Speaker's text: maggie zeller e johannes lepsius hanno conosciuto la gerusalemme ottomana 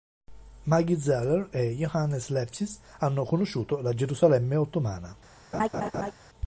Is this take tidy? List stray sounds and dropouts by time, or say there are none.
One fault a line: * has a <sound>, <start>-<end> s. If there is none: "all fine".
* has a laugh, 5.5-6.1 s